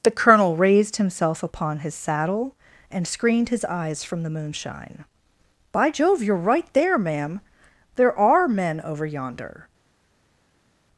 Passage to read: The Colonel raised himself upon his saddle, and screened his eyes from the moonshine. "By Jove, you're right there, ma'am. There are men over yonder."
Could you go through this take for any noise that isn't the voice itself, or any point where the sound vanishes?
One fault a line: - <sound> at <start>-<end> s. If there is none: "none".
none